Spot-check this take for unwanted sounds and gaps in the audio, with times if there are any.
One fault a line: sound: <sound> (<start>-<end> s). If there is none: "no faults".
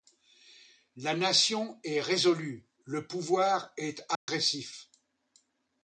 sound: dropout (4.2-4.3 s)